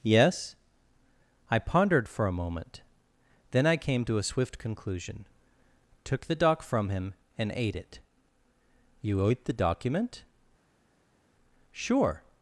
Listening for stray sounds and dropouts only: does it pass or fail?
pass